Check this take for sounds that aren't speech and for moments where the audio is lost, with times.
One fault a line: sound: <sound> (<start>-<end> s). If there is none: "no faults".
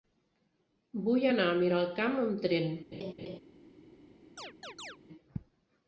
sound: laugh (2.9-3.4 s)
sound: chirp (4.4-5.0 s)